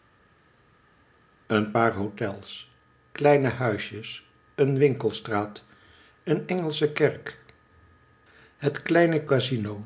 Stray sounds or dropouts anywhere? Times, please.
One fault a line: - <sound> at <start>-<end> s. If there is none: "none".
none